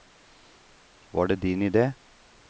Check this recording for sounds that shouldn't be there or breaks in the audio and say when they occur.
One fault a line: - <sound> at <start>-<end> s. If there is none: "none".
none